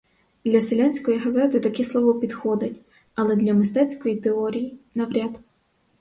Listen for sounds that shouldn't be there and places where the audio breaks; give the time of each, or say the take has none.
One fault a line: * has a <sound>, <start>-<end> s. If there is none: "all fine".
all fine